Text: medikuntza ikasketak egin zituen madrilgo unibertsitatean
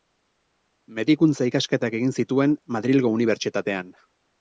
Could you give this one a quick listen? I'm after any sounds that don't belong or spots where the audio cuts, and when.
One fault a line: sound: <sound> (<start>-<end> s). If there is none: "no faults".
no faults